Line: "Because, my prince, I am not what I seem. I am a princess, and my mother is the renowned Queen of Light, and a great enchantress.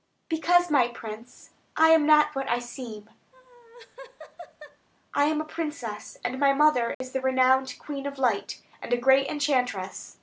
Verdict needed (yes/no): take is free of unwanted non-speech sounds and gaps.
no